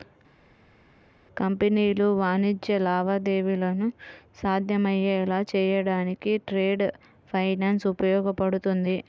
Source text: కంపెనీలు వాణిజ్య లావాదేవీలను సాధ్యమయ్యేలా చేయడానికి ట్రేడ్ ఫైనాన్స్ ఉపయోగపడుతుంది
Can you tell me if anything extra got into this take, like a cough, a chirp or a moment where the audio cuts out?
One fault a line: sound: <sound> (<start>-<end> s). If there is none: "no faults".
no faults